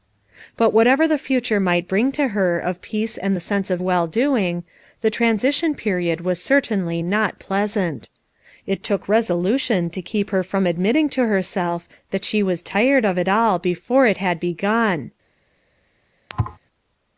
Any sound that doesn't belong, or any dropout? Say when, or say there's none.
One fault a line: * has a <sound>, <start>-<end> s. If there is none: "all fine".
* has a thud, 16.3-16.6 s